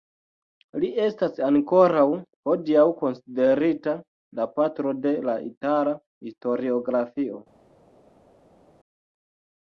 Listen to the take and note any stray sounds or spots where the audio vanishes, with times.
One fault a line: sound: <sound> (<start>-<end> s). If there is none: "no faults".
no faults